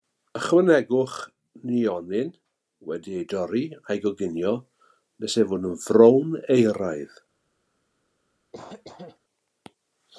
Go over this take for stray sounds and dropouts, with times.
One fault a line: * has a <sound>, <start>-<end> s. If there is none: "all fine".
* has a cough, 8.5-9.2 s